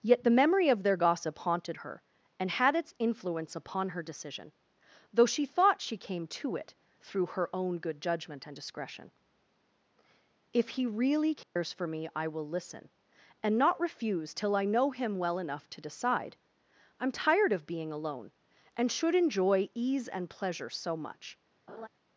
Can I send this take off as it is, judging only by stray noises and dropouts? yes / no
no